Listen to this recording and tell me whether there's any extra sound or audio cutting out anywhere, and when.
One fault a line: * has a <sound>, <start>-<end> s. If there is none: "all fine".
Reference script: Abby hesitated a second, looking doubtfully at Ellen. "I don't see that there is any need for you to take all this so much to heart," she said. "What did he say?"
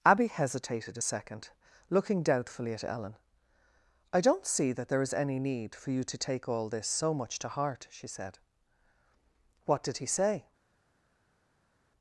all fine